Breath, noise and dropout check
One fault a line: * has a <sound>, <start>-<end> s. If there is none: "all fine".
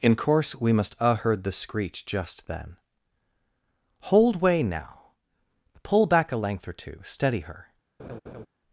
* has a laugh, 8.0-8.5 s